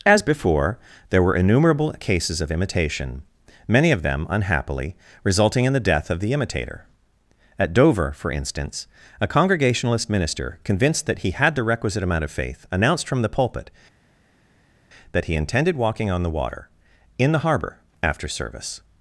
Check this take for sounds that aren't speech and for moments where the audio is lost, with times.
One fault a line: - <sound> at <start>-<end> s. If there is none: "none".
none